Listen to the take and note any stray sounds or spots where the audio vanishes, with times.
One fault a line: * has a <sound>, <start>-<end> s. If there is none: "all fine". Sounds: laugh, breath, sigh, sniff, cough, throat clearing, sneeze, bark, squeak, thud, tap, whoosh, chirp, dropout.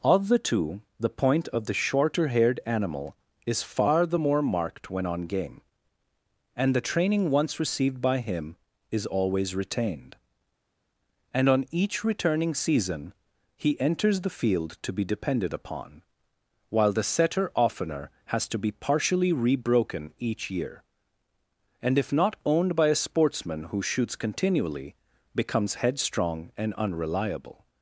all fine